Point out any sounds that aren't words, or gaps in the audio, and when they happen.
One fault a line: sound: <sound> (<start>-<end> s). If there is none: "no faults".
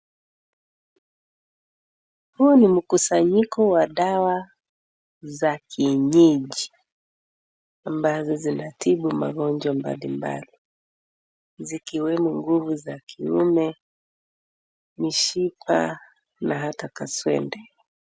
no faults